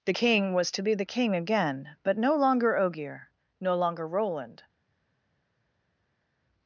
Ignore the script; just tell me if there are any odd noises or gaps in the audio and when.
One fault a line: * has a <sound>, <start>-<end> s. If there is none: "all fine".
all fine